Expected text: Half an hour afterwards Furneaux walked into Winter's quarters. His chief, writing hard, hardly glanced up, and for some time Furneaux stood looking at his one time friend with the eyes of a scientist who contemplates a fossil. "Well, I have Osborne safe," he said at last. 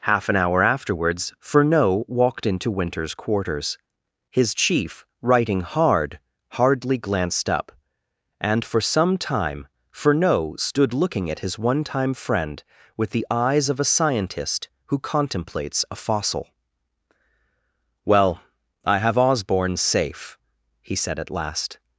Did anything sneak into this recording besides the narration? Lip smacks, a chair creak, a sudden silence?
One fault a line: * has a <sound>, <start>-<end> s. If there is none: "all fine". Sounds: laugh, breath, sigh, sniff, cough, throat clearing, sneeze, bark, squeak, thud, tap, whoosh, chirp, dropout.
all fine